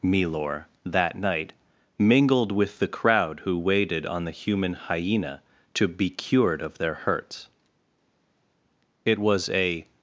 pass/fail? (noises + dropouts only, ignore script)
pass